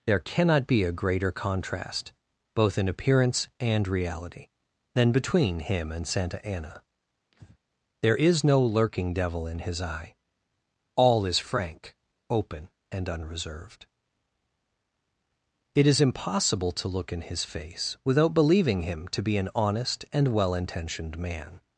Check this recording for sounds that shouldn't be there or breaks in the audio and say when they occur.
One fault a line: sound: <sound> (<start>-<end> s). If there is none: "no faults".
sound: breath (7.3-7.6 s)